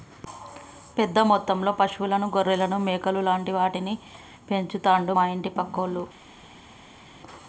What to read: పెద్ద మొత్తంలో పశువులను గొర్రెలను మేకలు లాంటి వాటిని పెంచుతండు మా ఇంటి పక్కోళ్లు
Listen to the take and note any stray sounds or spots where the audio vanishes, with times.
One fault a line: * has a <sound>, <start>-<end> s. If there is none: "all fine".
all fine